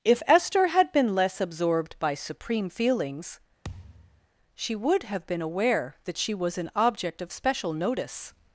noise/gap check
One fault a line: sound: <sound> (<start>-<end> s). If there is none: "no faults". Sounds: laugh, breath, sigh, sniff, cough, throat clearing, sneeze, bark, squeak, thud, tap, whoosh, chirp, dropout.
sound: thud (3.6-4.3 s)